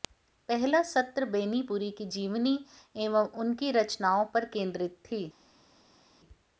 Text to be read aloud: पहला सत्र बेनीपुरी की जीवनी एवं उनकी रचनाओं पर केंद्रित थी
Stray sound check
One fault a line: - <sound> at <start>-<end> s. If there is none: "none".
none